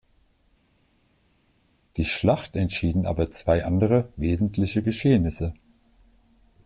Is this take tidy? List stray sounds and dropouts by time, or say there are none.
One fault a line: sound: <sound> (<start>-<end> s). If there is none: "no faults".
no faults